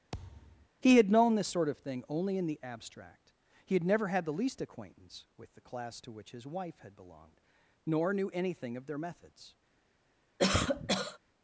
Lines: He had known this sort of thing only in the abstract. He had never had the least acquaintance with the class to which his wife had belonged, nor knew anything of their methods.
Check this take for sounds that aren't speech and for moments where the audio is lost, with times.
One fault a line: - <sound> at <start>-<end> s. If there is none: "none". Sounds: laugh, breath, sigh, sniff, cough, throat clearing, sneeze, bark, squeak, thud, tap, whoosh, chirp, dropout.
- thud at 0.1-0.7 s
- cough at 10.4-11.2 s